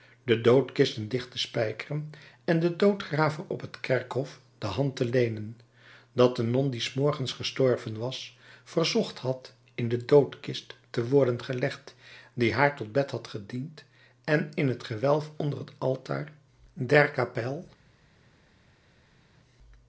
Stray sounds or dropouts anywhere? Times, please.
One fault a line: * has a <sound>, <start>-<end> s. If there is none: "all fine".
all fine